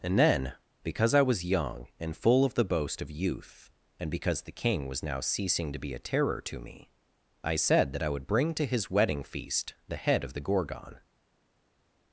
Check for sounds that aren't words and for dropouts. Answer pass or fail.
pass